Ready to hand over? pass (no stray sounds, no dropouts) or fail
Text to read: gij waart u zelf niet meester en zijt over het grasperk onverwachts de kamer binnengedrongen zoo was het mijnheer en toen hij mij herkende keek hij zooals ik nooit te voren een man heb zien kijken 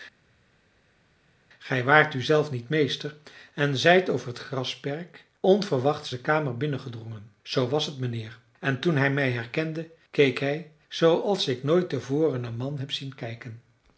pass